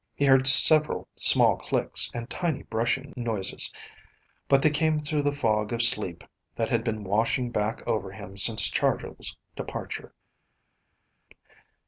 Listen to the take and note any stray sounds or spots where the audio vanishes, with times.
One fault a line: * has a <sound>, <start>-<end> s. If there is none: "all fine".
all fine